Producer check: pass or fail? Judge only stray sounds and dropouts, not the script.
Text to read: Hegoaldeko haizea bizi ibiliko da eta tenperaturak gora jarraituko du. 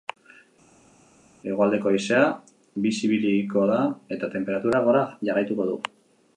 pass